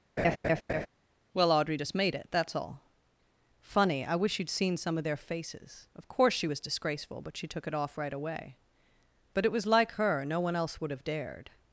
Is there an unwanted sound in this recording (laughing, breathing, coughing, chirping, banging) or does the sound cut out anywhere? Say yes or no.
yes